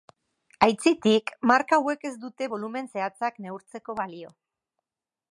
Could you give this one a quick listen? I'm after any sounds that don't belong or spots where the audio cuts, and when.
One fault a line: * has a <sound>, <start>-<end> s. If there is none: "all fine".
all fine